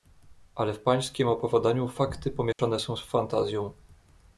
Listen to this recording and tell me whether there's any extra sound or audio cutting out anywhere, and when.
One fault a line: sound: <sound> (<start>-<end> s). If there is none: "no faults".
sound: dropout (2.5-2.6 s)